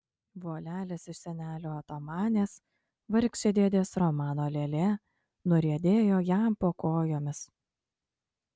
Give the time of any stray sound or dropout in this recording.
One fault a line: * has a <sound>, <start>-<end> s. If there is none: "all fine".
all fine